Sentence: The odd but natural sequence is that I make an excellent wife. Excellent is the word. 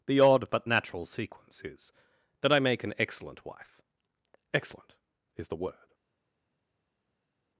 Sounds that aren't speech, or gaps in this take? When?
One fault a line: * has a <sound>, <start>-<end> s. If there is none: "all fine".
all fine